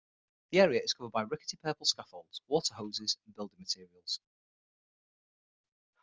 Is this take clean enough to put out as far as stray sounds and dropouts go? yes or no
yes